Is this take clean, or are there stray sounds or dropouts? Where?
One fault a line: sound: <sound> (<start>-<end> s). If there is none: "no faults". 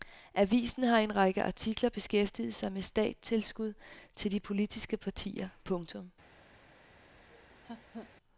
sound: laugh (7.3-8.1 s)